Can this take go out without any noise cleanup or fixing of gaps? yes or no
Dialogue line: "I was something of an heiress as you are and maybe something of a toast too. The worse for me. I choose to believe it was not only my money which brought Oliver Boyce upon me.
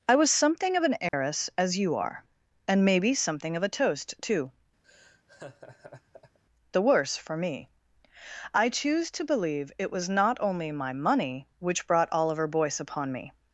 no